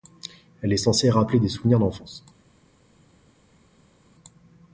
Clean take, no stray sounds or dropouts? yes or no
yes